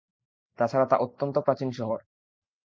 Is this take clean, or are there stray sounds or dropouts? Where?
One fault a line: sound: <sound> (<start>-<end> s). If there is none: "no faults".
no faults